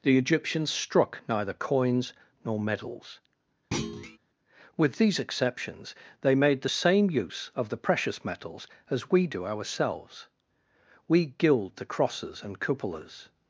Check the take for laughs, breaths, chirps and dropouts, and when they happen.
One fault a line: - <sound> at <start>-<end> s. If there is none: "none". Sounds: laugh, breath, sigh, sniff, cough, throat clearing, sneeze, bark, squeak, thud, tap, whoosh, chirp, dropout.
- thud at 3.7-4.2 s